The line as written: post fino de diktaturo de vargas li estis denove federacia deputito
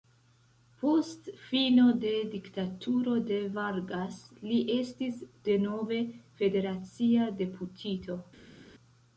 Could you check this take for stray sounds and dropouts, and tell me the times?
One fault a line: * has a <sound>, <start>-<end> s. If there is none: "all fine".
all fine